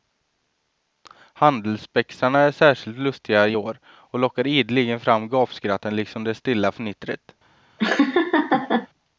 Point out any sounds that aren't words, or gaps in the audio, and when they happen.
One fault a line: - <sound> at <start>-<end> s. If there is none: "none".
- laugh at 7.8-8.9 s